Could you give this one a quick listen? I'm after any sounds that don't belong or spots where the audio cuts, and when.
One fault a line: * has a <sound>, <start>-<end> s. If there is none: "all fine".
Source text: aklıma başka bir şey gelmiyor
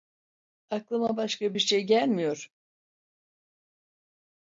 all fine